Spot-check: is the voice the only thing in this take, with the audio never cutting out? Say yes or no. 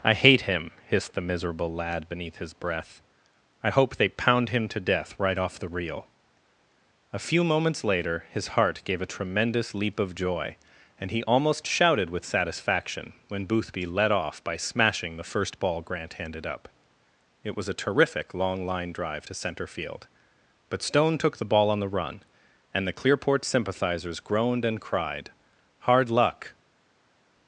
yes